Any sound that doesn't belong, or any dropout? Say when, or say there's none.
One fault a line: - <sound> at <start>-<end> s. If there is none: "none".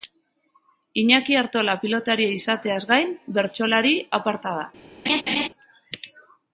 - laugh at 5.1-5.5 s